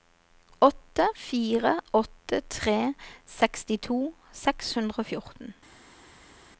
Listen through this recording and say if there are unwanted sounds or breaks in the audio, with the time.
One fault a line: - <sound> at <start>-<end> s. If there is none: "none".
none